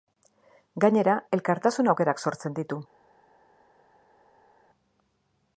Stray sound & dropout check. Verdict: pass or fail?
pass